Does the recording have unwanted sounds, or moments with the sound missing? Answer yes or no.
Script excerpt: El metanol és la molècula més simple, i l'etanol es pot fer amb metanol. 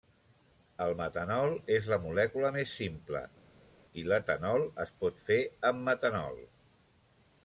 no